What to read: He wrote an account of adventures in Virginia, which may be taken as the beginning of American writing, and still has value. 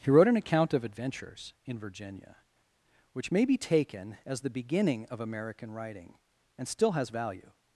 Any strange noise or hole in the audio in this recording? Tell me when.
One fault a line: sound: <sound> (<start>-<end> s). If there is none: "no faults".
no faults